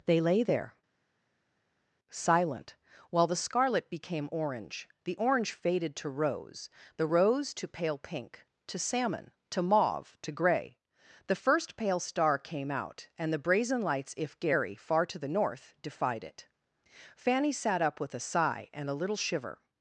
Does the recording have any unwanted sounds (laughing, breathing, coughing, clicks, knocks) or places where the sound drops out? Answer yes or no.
no